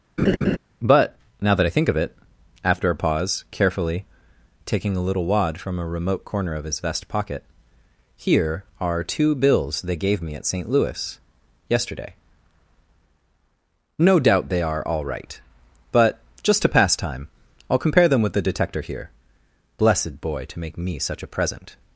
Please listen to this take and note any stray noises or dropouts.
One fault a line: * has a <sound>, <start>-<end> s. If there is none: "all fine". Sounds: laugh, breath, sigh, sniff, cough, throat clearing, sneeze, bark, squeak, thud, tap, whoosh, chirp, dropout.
* has a laugh, 0.2-0.6 s